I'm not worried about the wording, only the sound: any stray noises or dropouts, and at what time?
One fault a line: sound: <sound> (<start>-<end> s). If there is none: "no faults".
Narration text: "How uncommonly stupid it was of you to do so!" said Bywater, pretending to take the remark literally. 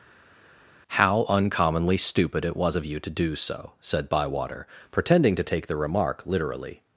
no faults